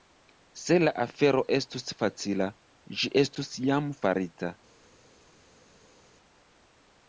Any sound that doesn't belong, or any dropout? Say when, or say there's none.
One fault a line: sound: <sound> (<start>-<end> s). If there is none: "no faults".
no faults